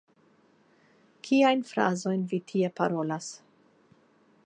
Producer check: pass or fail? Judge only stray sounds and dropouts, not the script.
pass